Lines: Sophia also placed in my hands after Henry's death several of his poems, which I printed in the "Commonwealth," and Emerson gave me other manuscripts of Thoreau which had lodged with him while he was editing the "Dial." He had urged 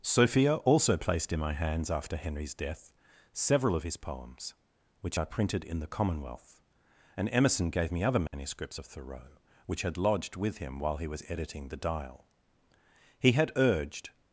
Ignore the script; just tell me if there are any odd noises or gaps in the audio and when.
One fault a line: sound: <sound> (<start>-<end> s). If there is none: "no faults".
sound: dropout (8.3-8.3 s)